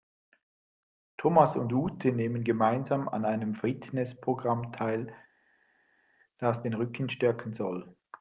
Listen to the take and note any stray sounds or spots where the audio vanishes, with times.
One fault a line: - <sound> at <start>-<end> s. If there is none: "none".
none